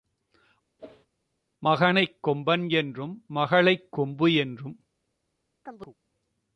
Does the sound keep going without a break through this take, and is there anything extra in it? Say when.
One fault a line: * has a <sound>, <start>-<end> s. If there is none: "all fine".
* has a whoosh, 0.8-1.1 s
* has a chirp, 5.7-6.0 s